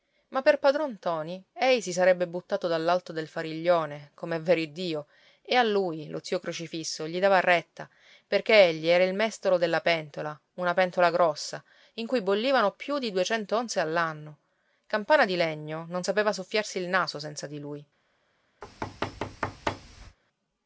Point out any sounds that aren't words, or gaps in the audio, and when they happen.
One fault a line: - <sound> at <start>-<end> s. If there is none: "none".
- thud at 18.6-20.2 s